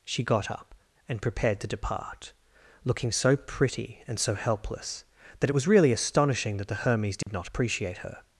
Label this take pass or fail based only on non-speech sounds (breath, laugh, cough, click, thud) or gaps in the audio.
fail